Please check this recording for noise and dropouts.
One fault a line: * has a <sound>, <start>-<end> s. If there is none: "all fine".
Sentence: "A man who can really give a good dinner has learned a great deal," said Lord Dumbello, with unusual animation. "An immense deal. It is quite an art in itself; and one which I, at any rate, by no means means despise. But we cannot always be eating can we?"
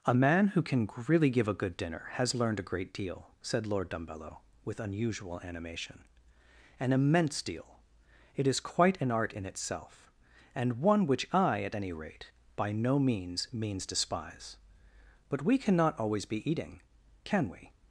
all fine